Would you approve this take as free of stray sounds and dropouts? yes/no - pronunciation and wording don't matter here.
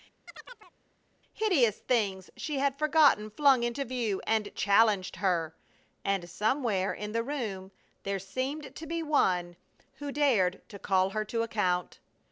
no